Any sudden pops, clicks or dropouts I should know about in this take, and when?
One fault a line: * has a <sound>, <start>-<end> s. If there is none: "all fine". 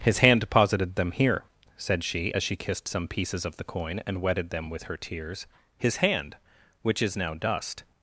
all fine